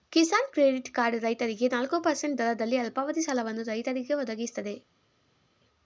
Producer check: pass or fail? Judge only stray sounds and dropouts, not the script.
pass